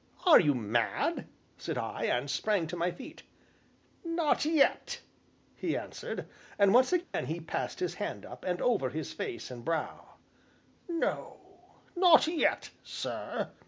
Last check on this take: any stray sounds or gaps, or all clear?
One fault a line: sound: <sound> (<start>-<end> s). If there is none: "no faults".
sound: dropout (7.0-7.1 s)